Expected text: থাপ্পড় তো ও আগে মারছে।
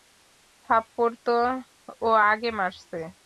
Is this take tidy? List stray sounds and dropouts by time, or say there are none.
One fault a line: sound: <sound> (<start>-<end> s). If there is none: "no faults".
no faults